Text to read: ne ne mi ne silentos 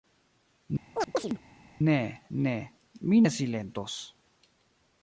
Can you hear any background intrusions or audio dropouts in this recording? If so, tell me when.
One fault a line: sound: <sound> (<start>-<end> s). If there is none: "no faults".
sound: chirp (0.9-1.4 s)